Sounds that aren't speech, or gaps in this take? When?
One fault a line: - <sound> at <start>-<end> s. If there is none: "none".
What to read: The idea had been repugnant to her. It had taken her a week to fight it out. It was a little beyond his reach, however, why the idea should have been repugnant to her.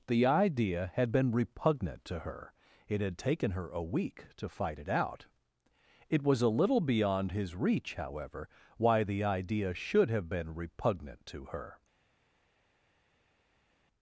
none